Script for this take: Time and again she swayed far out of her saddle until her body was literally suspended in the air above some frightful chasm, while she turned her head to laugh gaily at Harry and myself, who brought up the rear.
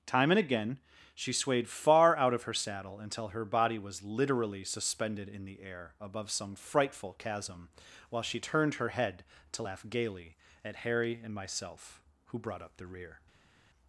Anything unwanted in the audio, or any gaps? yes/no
no